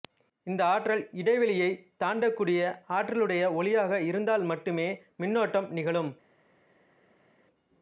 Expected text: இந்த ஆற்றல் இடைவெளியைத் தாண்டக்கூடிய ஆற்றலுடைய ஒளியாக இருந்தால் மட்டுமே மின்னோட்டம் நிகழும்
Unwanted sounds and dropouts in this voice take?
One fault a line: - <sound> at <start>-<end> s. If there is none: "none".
none